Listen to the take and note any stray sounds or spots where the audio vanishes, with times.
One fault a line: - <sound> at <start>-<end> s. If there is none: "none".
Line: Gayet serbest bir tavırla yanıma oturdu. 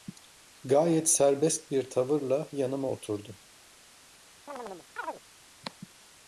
- chirp at 4.5-5.2 s